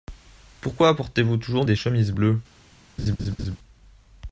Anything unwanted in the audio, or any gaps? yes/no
yes